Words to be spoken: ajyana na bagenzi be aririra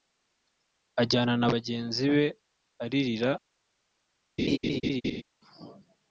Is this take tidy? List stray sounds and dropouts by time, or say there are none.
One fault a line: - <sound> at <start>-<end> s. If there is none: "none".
- laugh at 4.4-5.2 s